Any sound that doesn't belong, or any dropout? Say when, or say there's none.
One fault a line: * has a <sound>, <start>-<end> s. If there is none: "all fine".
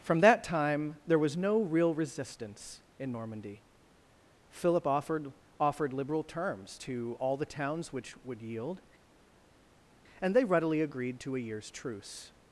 all fine